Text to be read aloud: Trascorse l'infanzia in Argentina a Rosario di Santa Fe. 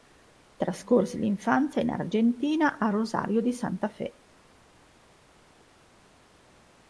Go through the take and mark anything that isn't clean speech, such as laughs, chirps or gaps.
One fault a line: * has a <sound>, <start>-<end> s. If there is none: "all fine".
all fine